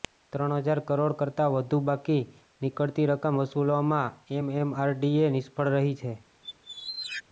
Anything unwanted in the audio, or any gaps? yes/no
yes